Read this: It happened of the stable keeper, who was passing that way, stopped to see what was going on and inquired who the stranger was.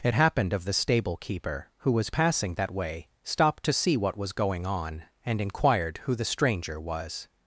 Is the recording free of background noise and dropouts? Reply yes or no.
yes